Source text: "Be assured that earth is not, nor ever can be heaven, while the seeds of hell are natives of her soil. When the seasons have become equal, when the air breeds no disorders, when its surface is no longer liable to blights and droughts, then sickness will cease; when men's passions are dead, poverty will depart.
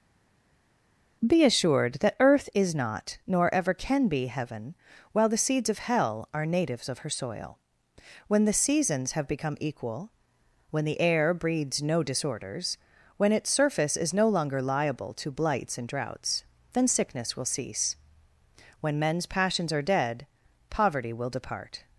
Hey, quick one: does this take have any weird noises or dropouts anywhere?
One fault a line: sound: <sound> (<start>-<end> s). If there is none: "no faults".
no faults